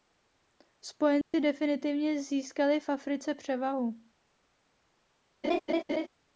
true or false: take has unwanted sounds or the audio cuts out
true